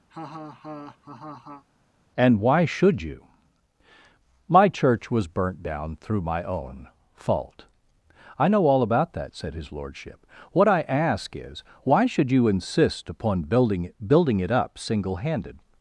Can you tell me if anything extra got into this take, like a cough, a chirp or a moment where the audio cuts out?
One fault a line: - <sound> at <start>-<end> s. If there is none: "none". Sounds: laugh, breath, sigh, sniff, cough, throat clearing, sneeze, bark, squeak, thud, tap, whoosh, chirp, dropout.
- laugh at 0.1-1.6 s